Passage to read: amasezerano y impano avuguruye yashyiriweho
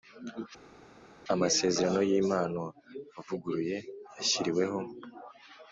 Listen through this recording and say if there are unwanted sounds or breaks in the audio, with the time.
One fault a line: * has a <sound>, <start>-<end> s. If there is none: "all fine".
all fine